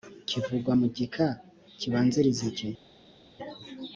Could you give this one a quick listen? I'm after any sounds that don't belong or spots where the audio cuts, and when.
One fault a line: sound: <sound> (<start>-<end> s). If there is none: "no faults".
no faults